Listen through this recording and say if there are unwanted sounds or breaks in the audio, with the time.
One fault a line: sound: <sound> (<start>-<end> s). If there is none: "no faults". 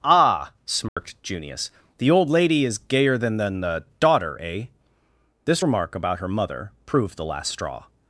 sound: dropout (0.9-1.0 s)